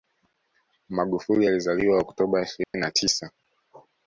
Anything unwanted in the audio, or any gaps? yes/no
yes